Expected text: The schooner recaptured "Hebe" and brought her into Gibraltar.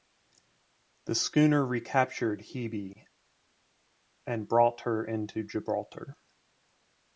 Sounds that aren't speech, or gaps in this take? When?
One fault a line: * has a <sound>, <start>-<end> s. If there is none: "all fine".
all fine